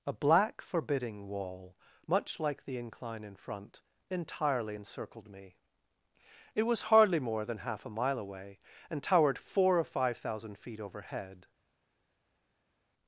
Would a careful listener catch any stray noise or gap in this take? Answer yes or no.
no